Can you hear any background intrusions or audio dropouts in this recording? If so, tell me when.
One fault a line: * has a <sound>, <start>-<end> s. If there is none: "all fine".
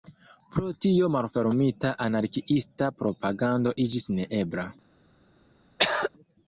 * has a throat clearing, 5.8-6.1 s